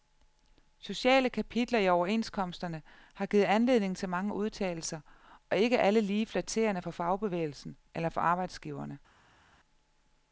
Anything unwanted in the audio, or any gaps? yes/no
no